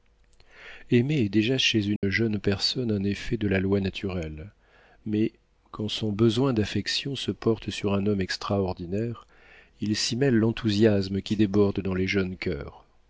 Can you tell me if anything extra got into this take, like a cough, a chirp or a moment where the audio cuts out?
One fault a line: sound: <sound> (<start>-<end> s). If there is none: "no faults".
sound: dropout (2.0-2.0 s)